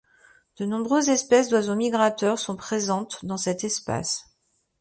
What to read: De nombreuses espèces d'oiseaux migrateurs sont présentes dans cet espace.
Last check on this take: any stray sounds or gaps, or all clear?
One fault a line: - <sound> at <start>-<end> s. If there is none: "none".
none